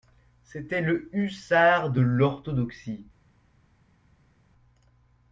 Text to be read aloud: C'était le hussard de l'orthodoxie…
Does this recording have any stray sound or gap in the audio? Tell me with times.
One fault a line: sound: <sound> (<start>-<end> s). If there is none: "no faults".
no faults